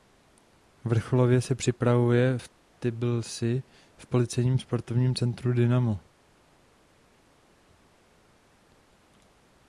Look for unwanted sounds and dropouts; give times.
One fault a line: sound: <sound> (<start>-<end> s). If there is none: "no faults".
no faults